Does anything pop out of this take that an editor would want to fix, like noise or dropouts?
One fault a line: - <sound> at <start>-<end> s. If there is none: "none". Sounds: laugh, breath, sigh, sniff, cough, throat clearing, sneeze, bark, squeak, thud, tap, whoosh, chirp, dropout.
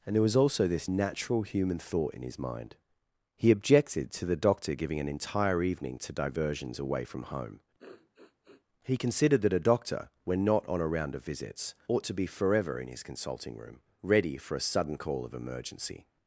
- sniff at 7.8-8.6 s